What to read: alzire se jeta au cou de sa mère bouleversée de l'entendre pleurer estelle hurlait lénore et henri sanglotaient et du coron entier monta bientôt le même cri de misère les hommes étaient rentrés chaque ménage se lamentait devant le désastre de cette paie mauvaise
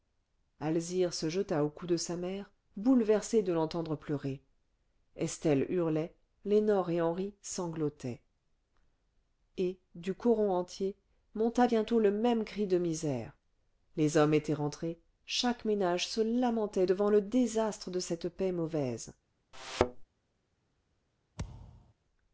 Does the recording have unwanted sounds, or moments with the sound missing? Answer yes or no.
yes